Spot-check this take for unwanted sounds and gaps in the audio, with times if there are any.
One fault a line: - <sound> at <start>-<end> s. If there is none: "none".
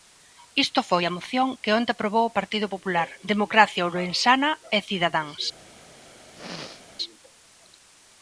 - throat clearing at 6.3-6.9 s